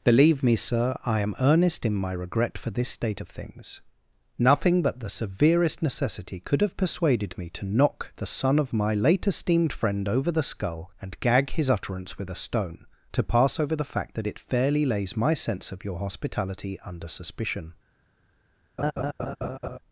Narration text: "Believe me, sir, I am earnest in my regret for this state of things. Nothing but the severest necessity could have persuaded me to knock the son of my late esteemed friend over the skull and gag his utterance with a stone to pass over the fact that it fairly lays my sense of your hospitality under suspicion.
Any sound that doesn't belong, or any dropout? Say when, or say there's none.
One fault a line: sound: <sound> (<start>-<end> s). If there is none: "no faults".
sound: laugh (18.8-19.8 s)